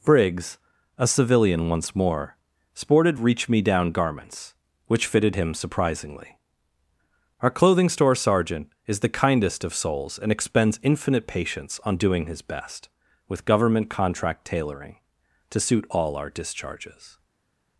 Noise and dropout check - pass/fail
pass